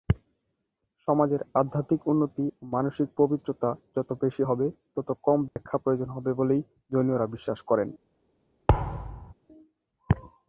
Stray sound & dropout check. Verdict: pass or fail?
fail